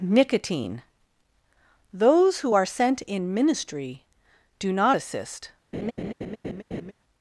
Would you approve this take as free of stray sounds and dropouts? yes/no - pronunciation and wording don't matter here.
no